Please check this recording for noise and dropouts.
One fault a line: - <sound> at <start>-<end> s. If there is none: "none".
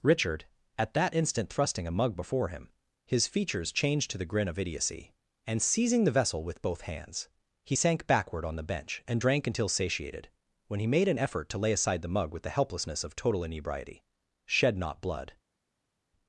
none